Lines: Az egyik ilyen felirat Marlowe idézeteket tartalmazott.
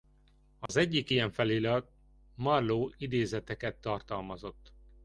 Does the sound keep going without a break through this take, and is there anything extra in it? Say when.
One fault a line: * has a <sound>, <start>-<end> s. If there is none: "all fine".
* has a dropout, 0.7-0.7 s